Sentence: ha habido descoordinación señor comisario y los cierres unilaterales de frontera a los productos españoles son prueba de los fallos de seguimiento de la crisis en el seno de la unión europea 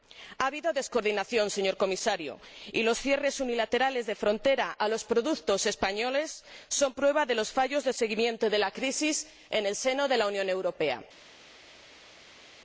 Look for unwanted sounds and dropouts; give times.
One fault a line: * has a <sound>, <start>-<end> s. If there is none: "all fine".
all fine